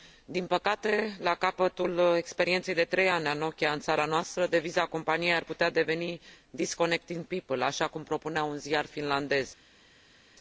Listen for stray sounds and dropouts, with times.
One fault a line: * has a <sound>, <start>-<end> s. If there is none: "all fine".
all fine